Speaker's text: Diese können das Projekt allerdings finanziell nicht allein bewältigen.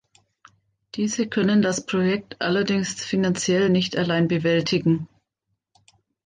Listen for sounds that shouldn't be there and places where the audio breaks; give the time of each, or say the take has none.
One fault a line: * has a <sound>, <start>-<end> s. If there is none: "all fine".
all fine